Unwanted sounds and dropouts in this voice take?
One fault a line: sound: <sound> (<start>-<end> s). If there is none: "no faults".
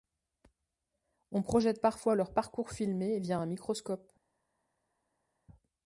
no faults